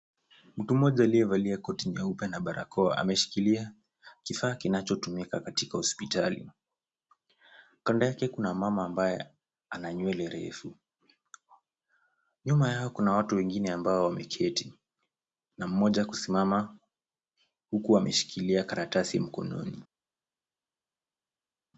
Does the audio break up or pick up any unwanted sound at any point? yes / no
no